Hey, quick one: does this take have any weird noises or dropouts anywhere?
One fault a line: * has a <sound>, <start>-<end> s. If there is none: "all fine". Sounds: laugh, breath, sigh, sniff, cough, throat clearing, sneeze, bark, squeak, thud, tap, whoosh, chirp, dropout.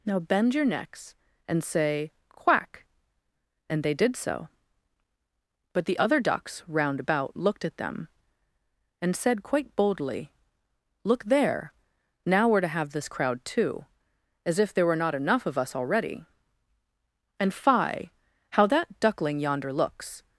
all fine